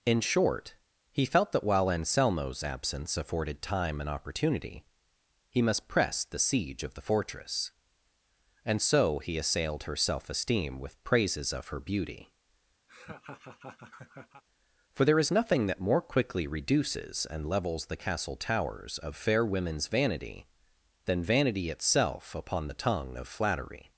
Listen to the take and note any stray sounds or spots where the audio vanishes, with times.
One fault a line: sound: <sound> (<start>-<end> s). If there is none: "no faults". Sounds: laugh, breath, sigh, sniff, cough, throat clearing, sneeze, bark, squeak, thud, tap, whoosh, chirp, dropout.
sound: laugh (12.9-14.4 s)